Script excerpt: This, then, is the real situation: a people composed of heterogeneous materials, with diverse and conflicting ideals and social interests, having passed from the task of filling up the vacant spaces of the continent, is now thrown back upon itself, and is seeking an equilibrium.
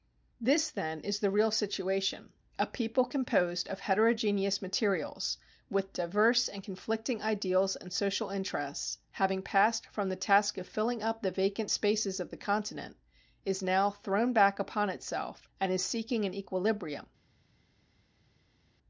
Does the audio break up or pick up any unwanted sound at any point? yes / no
no